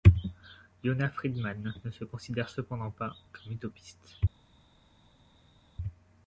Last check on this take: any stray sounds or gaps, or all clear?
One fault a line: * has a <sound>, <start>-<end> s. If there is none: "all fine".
all fine